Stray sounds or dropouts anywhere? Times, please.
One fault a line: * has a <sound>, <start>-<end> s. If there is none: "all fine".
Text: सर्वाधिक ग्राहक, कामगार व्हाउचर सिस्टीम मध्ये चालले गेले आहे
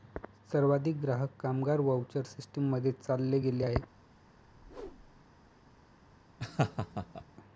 * has a whoosh, 4.4-5.3 s
* has a laugh, 6.4-7.2 s